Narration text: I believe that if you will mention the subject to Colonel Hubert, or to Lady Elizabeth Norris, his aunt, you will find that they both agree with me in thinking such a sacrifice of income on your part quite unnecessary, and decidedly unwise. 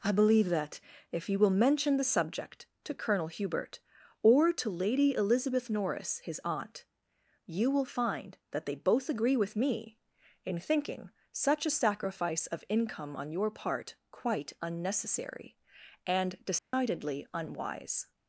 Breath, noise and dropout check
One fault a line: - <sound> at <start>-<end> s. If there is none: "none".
- dropout at 16.6-16.7 s